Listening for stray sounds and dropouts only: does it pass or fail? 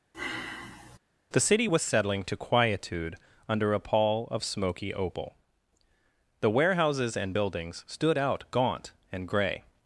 fail